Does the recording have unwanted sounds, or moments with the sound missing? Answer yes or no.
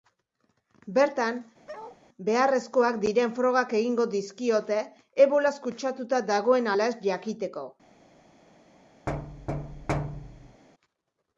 yes